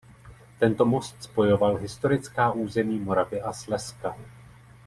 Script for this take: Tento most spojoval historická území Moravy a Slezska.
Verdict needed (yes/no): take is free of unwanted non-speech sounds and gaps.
yes